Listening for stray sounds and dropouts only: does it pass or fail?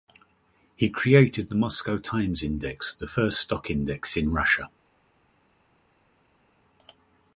pass